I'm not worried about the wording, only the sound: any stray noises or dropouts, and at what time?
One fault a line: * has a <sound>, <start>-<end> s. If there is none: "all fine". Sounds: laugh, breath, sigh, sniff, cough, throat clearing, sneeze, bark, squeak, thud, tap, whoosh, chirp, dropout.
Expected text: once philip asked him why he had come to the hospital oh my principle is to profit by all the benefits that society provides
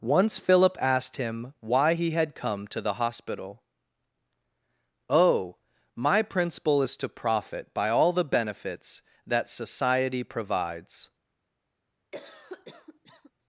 * has a cough, 12.1-13.3 s